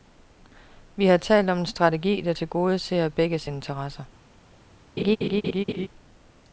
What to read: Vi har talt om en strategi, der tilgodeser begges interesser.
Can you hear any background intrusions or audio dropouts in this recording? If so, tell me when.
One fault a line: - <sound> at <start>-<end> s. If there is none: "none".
- laugh at 5.0-5.9 s